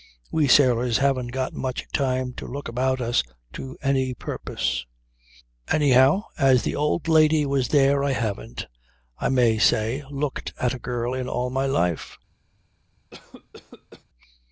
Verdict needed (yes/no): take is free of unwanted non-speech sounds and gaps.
no